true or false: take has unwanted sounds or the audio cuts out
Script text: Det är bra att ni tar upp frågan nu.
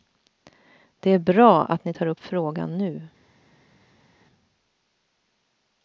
false